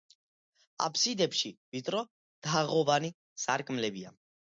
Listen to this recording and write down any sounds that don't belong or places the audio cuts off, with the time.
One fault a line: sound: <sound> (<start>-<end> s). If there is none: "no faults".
no faults